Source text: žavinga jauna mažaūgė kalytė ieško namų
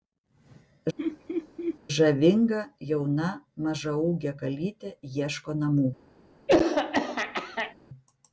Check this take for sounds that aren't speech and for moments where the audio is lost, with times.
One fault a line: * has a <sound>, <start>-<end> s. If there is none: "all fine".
* has a laugh, 1.0-1.8 s
* has a throat clearing, 6.5-7.8 s